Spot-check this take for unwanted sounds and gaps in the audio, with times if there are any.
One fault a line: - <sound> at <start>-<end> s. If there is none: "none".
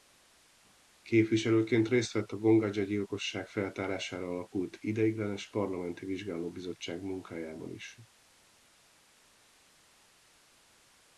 none